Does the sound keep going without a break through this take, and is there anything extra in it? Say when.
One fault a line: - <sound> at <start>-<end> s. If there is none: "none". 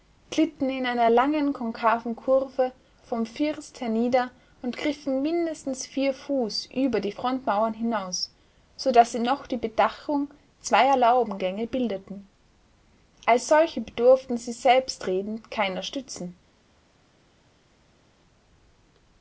none